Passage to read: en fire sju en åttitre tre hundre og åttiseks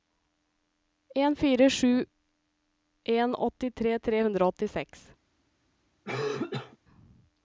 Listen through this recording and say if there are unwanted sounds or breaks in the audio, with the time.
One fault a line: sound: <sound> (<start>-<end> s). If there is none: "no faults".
sound: cough (6.0-6.8 s)